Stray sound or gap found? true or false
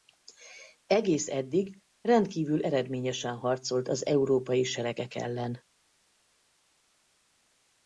false